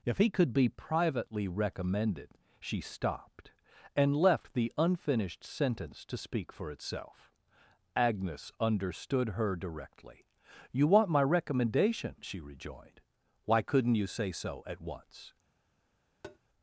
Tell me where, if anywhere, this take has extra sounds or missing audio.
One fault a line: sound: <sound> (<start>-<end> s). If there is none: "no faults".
sound: tap (16.2-16.4 s)